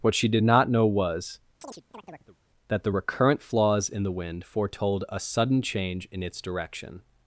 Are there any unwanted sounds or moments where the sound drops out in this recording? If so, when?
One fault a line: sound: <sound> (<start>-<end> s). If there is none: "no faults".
sound: chirp (1.6-2.4 s)